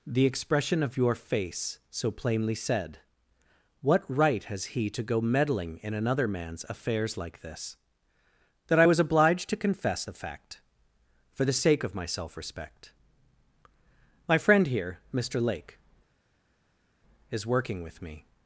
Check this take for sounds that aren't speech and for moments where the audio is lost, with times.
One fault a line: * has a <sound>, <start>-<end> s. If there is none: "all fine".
all fine